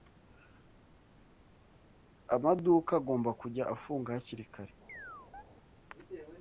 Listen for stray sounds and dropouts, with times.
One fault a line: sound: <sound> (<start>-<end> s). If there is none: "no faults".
sound: chirp (4.9-5.4 s)